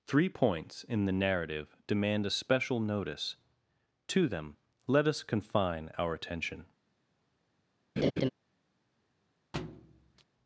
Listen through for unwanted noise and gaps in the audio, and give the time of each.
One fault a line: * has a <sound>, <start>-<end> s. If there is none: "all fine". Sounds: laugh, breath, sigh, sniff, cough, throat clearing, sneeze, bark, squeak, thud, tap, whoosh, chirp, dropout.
* has a laugh, 8.0-8.3 s
* has a thud, 9.5-10.2 s